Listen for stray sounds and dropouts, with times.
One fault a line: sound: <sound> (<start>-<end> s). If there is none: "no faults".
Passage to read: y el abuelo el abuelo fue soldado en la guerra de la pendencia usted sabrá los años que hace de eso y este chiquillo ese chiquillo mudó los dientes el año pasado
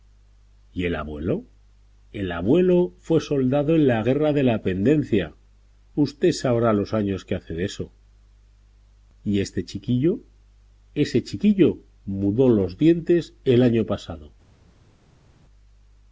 no faults